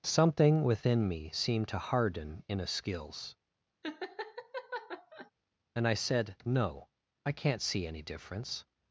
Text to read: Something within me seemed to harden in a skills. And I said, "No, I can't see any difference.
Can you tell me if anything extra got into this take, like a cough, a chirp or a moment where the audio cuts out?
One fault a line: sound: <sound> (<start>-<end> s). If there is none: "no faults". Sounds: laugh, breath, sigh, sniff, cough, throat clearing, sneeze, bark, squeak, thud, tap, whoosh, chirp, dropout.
sound: laugh (3.8-5.3 s)